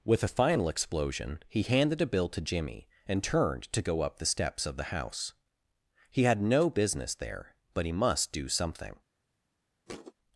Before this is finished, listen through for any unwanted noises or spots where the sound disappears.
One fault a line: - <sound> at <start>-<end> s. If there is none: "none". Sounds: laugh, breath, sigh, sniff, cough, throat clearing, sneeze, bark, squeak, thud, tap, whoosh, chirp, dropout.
- thud at 9.9-10.1 s